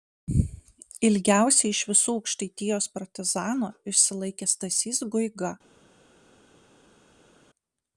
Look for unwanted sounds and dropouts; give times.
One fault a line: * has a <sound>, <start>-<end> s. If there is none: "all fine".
all fine